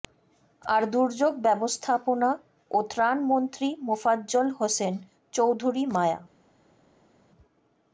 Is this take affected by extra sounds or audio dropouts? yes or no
no